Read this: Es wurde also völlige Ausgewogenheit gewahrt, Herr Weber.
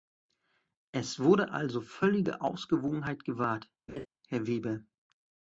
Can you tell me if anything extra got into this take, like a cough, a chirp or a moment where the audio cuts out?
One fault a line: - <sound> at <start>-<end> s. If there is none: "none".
- laugh at 3.9-4.1 s